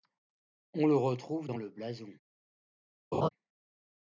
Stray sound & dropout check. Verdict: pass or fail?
fail